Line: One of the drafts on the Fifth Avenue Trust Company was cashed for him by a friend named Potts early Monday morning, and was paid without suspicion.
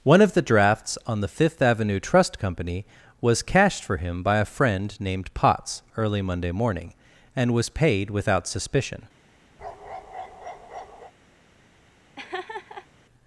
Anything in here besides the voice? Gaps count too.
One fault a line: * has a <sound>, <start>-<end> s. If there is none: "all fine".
* has a bark, 9.6-11.1 s
* has a laugh, 12.2-12.9 s